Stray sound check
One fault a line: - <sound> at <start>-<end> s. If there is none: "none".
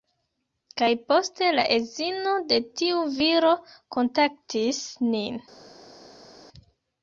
none